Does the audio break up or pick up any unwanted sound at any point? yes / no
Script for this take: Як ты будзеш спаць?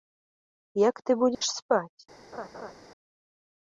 yes